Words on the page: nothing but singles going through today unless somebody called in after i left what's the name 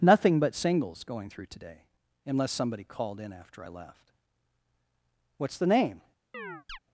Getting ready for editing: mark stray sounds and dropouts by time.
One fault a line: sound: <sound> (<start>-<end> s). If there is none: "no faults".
sound: chirp (6.3-6.8 s)